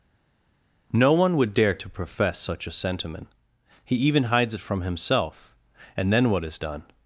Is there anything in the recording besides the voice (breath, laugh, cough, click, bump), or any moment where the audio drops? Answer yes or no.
no